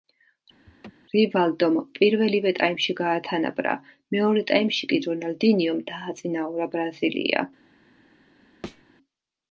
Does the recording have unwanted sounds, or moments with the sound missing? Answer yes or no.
yes